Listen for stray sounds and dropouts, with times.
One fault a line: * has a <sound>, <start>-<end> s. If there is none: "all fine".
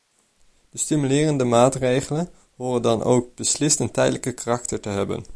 all fine